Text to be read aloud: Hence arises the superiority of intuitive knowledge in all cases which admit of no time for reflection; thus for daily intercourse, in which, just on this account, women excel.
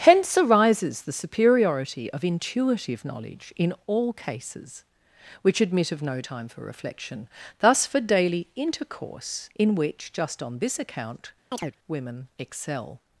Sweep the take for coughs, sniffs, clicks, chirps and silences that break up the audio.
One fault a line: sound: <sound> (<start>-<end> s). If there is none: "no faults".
sound: chirp (11.5-11.8 s)